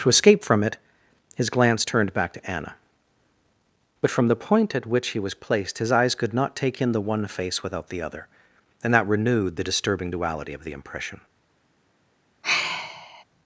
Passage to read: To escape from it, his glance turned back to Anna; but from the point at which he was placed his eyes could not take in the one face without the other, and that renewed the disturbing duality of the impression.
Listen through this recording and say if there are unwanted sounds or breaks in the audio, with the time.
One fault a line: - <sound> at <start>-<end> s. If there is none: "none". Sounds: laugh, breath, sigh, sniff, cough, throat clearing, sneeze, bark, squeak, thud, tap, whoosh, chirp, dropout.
- sigh at 12.4-13.2 s